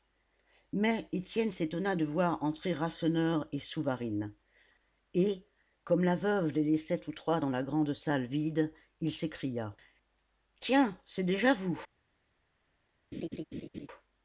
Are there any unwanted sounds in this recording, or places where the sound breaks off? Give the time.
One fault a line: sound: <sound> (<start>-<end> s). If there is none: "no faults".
sound: laugh (13.1-13.9 s)